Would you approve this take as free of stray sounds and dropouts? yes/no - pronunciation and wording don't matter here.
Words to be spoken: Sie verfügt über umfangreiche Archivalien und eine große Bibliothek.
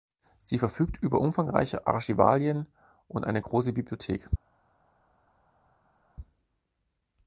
yes